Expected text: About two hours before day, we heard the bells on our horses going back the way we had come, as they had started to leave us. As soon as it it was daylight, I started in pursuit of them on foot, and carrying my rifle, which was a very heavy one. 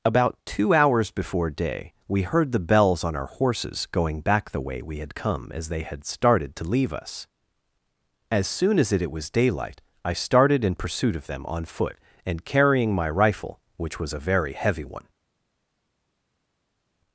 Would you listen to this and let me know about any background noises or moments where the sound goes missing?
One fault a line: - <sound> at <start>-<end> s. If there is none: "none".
none